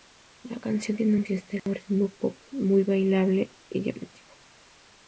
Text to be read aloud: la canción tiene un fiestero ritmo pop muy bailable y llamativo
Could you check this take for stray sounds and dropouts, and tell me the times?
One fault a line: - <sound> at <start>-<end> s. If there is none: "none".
- dropout at 1.6-1.7 s